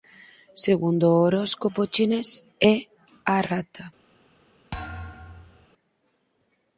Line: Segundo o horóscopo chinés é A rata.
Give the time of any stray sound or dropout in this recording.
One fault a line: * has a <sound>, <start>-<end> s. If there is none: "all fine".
* has a thud, 4.7-5.7 s